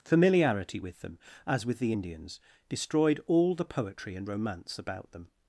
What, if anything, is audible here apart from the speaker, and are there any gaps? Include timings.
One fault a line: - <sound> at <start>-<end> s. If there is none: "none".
none